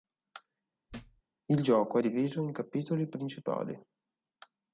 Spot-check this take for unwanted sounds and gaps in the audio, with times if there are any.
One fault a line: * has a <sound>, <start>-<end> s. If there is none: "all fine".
* has a thud, 0.9-1.2 s